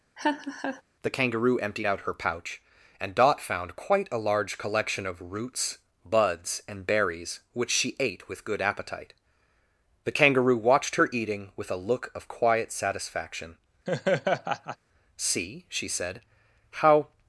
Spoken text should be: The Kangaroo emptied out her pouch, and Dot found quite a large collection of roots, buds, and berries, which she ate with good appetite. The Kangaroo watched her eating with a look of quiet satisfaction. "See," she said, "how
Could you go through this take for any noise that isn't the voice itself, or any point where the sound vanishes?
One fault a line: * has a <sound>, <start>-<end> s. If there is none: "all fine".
* has a laugh, 0.2-0.8 s
* has a laugh, 13.9-14.8 s